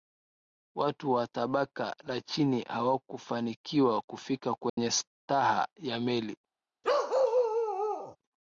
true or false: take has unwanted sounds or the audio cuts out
true